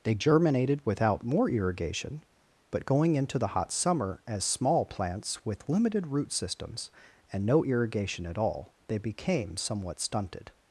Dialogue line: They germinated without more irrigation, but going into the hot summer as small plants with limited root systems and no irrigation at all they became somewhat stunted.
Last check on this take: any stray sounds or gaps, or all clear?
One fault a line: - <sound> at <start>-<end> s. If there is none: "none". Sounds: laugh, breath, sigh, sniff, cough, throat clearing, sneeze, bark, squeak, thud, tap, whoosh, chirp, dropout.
none